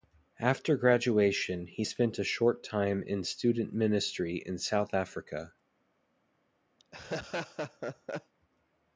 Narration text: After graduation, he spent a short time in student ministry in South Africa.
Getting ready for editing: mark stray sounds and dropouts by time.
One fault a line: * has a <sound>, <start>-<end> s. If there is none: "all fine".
* has a laugh, 6.8-8.3 s